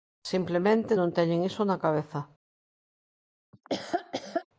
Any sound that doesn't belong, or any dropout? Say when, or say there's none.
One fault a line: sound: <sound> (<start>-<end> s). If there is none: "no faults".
sound: laugh (3.5-4.5 s)